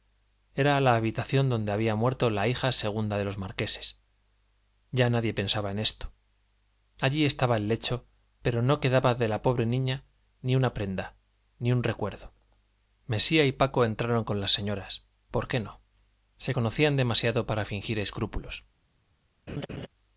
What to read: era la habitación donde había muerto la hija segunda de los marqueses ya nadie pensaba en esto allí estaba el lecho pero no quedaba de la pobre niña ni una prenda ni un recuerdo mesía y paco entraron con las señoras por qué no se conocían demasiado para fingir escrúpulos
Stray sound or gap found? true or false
true